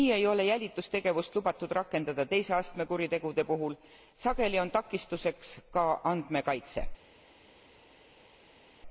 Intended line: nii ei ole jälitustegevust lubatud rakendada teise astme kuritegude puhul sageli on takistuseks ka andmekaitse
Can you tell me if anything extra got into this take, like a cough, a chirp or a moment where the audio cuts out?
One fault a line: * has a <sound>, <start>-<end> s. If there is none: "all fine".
all fine